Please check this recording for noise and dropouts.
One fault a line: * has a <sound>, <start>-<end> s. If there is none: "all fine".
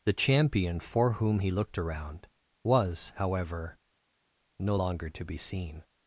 all fine